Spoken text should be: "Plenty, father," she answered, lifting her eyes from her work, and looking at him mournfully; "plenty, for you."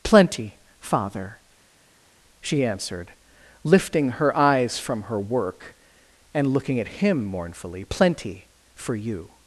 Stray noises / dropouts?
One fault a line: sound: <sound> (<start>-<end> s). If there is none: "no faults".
no faults